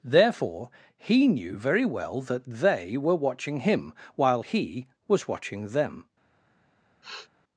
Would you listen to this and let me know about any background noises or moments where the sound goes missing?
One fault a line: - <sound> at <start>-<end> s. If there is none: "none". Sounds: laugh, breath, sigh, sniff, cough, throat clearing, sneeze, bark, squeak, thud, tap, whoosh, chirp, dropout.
- sniff at 7.0-7.3 s